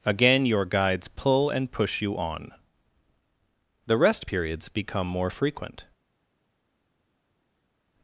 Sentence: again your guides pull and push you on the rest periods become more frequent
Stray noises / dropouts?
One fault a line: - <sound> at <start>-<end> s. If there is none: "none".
none